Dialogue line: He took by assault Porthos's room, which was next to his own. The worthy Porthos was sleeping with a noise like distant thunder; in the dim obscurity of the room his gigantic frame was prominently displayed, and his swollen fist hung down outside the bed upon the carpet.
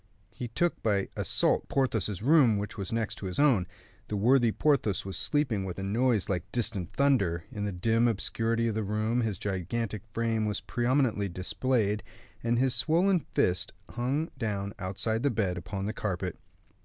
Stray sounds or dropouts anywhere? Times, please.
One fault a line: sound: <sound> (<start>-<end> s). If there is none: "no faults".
no faults